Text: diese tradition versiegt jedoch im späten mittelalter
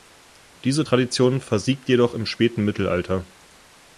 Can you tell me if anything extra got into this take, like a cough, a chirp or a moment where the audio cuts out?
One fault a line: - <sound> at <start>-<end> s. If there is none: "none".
none